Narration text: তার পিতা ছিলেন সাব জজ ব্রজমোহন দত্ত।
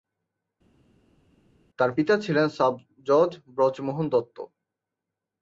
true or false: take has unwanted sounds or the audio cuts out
false